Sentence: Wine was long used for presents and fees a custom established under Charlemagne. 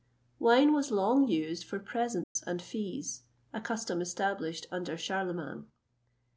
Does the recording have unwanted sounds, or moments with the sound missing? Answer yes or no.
yes